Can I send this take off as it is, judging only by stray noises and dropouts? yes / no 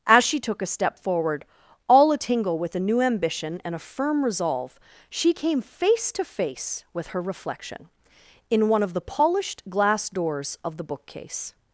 yes